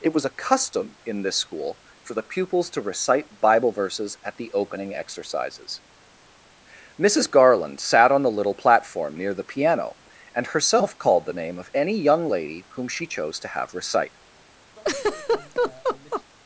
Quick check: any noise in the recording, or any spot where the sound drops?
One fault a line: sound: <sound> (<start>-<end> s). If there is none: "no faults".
sound: laugh (14.8-16.2 s)